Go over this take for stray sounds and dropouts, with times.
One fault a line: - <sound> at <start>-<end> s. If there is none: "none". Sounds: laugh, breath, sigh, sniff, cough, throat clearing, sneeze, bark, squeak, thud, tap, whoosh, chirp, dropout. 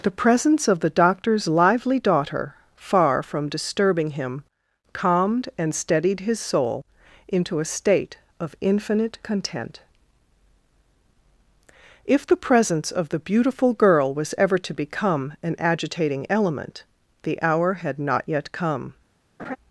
- laugh at 19.4-19.6 s